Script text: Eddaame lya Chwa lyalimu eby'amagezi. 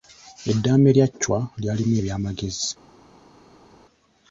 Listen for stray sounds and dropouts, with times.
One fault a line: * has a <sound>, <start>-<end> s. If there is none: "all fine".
all fine